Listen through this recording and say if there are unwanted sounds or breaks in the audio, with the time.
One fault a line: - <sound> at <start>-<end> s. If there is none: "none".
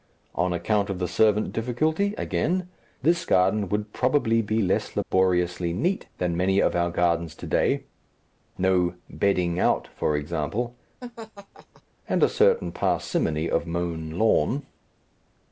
- dropout at 5.0-5.1 s
- laugh at 11.0-11.8 s